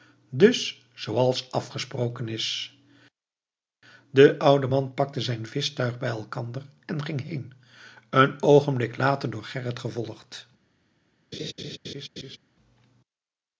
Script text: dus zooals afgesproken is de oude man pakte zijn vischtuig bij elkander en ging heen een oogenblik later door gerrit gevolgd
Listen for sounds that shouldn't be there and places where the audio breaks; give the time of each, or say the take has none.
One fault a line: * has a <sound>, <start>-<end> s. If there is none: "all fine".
* has a laugh, 11.3-12.4 s